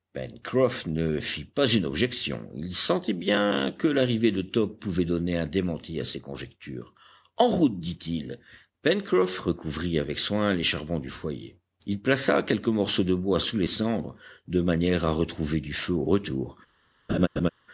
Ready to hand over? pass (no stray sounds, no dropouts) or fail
fail